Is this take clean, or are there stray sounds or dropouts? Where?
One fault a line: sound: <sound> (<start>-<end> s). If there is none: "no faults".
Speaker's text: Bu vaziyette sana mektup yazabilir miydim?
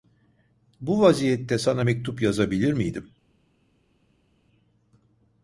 no faults